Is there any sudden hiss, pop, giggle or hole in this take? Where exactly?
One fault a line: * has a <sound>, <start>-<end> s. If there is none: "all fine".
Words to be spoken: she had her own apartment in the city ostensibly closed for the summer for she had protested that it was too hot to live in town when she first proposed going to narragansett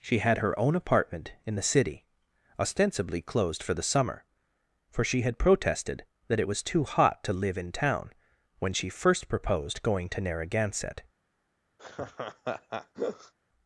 * has a laugh, 11.8-13.3 s